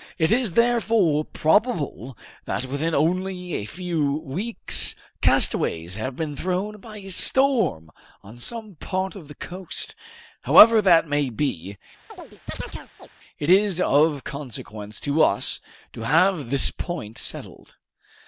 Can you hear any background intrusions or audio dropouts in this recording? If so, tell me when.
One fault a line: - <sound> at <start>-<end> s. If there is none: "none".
- chirp at 12.1-13.1 s